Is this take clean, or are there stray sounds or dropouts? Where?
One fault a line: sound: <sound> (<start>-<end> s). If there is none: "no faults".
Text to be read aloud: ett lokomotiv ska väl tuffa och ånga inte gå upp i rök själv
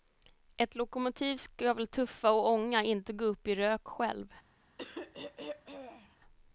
sound: throat clearing (4.8-6.2 s)